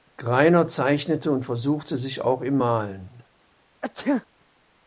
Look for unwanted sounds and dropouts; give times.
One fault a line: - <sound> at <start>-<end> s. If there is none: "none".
- sneeze at 3.8-4.3 s